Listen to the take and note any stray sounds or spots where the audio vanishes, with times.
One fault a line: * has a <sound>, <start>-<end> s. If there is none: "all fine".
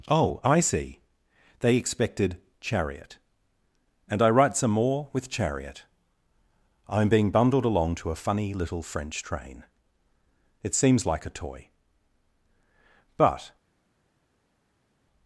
all fine